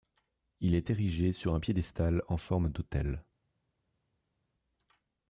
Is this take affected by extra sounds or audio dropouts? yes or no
no